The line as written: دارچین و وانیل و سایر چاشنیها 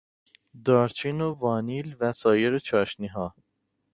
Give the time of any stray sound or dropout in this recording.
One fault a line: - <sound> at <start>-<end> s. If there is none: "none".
none